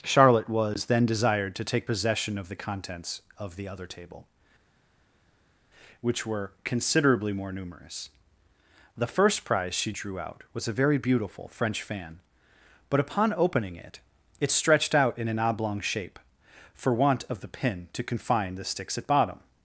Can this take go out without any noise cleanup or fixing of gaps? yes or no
yes